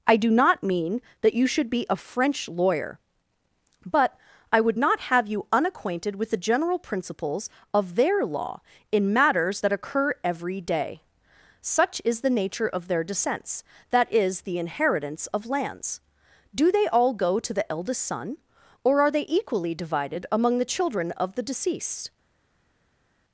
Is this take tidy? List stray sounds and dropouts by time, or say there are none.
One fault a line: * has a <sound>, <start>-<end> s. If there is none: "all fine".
all fine